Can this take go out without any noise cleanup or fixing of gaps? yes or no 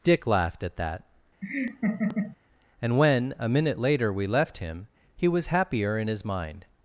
no